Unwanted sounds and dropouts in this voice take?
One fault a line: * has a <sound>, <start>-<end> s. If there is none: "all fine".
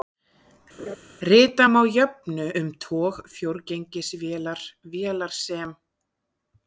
* has a laugh, 0.8-1.0 s